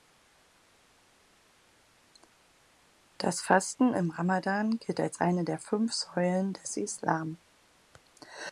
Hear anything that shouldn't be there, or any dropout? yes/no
no